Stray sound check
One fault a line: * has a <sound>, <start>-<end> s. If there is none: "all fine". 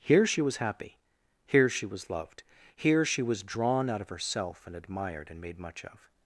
all fine